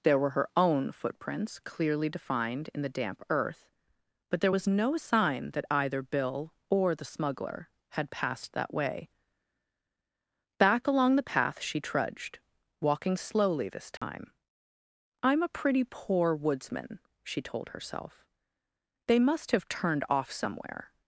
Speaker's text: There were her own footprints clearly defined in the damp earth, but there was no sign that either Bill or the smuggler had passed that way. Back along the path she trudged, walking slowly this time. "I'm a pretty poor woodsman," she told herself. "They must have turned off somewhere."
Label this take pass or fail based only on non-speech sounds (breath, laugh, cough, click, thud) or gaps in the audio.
fail